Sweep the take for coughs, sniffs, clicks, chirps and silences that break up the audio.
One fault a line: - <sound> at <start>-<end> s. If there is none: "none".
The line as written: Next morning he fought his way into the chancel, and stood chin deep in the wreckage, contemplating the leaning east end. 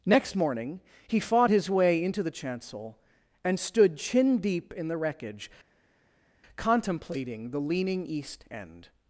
none